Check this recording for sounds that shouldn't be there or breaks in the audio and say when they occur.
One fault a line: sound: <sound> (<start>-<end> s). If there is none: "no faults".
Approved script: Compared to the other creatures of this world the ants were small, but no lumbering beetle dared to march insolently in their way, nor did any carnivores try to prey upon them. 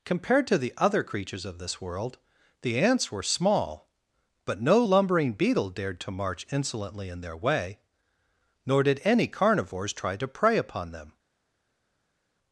no faults